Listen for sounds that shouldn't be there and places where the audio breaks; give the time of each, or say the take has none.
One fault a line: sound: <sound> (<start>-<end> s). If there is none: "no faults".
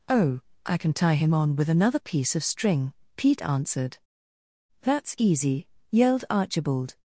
no faults